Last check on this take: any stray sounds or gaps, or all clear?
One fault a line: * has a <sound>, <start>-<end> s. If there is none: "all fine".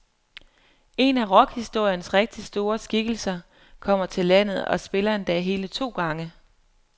all fine